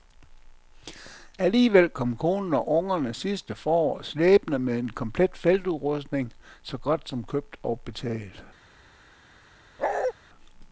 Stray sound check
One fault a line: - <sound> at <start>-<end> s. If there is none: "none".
- bark at 9.8-10.1 s